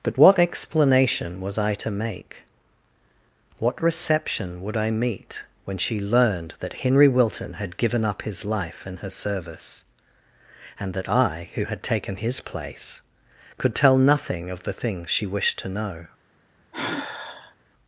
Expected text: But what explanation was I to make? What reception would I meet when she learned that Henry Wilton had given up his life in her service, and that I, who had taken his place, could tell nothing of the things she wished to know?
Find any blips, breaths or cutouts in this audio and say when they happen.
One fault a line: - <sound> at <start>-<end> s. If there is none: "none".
- sigh at 16.7-17.5 s